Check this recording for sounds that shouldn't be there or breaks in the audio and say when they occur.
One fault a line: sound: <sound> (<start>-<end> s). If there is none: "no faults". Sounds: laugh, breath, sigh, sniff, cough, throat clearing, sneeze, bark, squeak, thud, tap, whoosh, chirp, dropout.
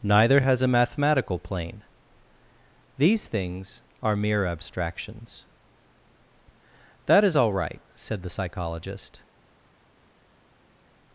no faults